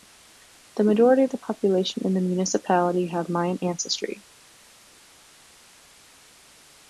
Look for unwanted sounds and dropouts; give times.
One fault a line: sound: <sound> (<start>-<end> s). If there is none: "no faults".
no faults